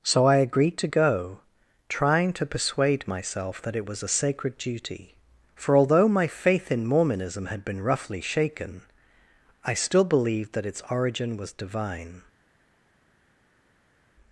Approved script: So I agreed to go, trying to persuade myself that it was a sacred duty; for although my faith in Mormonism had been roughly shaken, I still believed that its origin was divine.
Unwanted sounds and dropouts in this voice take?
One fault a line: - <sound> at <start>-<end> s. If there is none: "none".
none